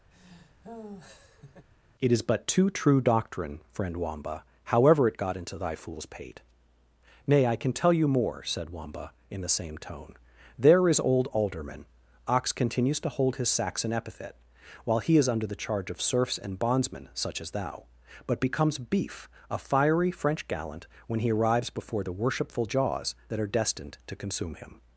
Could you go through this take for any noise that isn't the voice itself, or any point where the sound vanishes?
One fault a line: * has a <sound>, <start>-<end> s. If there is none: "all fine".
* has a laugh, 0.1-1.7 s